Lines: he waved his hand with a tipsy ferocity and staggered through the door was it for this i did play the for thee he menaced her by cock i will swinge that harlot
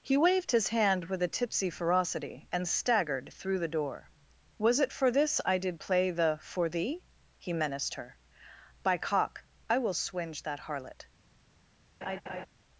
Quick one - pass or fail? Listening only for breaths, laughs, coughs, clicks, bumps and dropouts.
fail